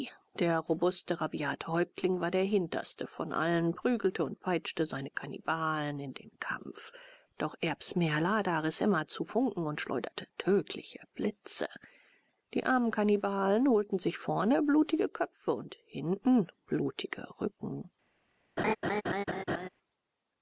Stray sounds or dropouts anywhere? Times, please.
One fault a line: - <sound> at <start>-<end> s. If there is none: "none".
- laugh at 18.6-19.7 s